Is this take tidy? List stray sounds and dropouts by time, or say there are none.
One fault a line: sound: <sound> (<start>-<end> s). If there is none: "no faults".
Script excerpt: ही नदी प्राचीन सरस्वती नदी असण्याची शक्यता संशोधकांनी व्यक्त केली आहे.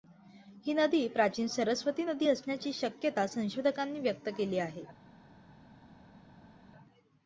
no faults